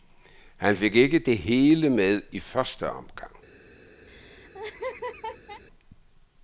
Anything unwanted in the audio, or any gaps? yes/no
yes